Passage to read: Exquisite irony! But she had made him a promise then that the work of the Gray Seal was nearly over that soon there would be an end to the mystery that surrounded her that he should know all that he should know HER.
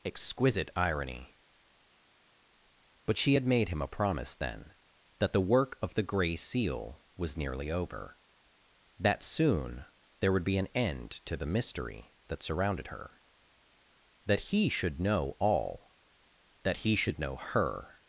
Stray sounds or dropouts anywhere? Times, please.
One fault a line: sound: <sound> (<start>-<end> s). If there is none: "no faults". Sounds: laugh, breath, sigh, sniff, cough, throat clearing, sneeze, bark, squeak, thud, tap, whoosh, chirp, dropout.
no faults